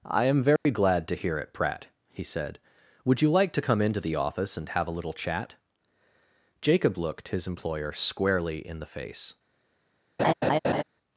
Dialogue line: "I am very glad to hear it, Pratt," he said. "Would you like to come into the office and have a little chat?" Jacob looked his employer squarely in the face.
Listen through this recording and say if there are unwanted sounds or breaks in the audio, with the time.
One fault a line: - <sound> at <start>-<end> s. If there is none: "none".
- dropout at 0.6-0.7 s
- laugh at 10.2-10.8 s